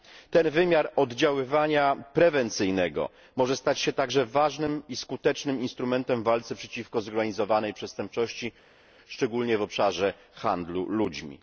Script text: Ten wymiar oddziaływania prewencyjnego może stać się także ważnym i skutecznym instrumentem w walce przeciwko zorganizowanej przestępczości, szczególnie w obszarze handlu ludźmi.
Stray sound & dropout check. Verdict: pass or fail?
pass